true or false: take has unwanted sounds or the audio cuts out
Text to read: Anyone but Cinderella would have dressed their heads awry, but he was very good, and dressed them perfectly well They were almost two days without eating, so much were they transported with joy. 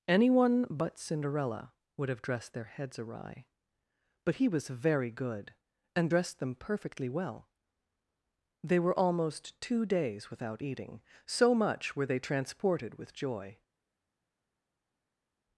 false